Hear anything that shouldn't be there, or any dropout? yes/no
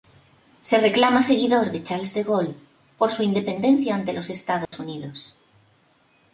yes